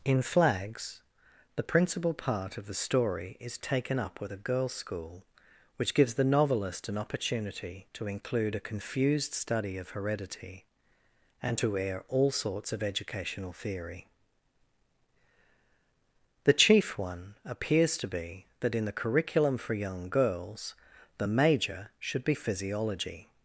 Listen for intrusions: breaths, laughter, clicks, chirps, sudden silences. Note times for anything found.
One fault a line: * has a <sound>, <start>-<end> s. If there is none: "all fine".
all fine